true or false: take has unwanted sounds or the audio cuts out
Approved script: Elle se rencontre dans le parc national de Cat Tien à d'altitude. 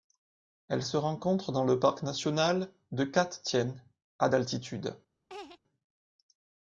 true